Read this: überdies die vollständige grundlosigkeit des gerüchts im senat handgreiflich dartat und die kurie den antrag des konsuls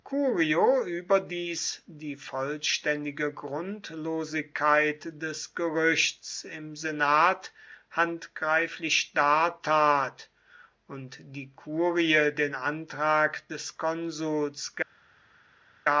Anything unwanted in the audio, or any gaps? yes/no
no